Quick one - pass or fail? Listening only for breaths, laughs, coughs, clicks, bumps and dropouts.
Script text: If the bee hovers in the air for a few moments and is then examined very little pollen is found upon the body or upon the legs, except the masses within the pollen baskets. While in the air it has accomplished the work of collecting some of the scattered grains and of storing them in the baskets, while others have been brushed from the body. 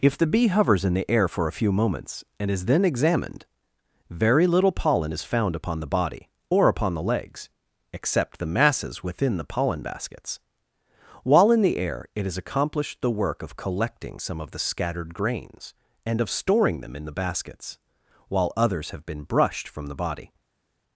pass